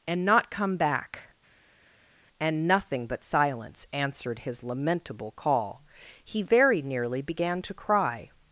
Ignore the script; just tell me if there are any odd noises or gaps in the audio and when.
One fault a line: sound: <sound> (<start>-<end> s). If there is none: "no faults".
no faults